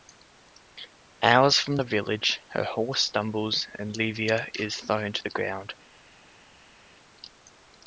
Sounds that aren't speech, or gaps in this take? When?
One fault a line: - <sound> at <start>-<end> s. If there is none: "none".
none